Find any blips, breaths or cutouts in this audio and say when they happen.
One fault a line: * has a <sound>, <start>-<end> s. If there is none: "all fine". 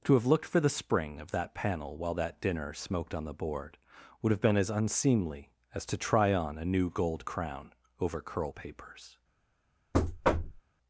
* has a thud, 9.9-10.6 s